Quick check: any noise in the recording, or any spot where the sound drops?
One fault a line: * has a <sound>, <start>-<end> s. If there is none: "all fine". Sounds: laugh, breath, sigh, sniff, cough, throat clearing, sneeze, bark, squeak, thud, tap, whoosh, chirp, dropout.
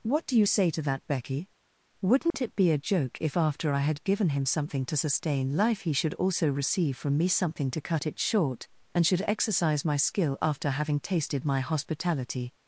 * has a dropout, 2.3-2.3 s